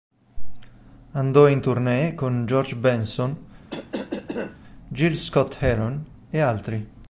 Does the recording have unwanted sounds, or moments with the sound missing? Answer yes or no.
yes